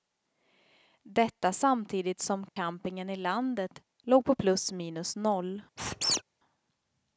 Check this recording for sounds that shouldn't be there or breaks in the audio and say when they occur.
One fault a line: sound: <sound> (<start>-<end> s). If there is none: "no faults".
sound: dropout (2.5-2.6 s)
sound: squeak (5.8-6.2 s)